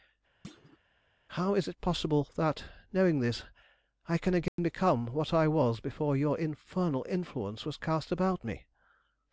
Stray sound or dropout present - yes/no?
yes